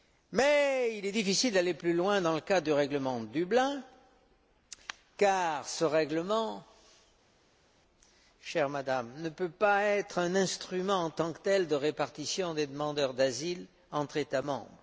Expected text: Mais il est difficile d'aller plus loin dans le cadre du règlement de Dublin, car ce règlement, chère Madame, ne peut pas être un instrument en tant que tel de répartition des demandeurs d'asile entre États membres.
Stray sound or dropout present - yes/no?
no